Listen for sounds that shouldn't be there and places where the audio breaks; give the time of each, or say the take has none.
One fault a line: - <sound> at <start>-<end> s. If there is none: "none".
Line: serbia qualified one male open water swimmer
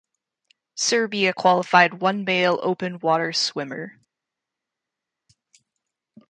none